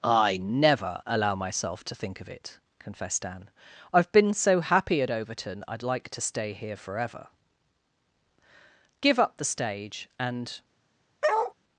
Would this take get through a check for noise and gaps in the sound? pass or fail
fail